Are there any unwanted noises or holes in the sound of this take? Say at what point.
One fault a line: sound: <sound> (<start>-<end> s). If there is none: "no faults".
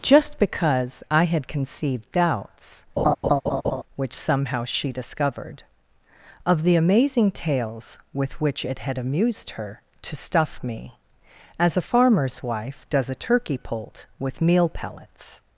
sound: laugh (3.0-3.8 s)